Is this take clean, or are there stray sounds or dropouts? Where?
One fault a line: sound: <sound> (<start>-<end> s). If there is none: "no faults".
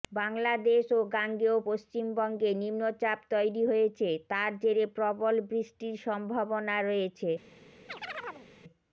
sound: chirp (7.9-8.5 s)